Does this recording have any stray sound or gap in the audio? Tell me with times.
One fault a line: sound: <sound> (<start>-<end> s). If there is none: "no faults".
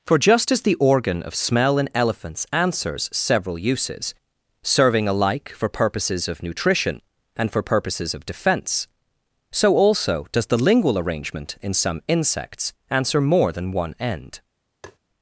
sound: tap (14.8-15.0 s)